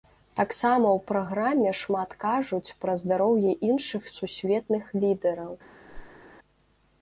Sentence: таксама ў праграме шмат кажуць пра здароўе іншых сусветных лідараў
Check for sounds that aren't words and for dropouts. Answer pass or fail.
fail